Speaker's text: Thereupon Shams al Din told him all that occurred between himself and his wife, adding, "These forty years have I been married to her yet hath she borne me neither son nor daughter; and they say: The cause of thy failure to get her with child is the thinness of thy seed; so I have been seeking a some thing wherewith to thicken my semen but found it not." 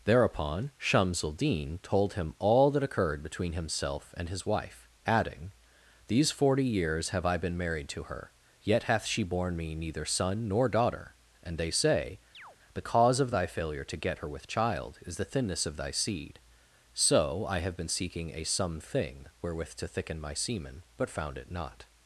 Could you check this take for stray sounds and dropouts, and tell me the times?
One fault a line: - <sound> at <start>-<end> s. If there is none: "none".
- chirp at 12.3-12.6 s